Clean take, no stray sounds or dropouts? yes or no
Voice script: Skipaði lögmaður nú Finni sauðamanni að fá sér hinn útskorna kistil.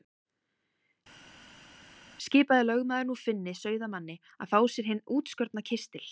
yes